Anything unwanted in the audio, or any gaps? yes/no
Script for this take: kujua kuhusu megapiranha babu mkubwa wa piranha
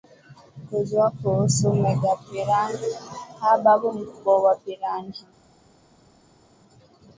no